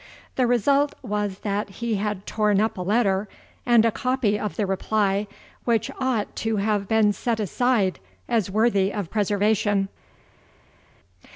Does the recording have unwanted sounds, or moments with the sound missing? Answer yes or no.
no